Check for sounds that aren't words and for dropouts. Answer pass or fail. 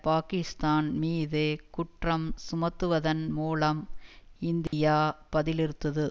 fail